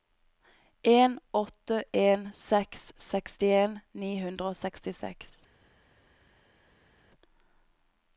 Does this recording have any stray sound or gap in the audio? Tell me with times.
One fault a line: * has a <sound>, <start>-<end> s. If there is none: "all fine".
all fine